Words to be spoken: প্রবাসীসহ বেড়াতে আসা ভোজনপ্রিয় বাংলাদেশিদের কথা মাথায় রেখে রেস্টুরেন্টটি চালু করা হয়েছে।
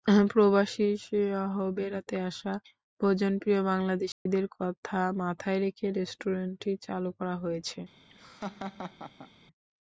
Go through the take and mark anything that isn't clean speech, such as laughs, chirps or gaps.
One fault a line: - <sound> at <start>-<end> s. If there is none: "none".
- dropout at 4.1-4.3 s
- laugh at 8.1-9.3 s